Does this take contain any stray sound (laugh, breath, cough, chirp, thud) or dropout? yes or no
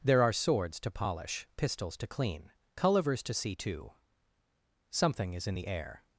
no